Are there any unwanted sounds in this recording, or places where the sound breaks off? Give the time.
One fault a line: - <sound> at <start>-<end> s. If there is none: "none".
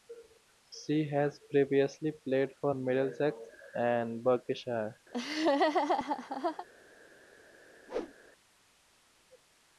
- laugh at 5.1-6.7 s
- whoosh at 7.9-8.1 s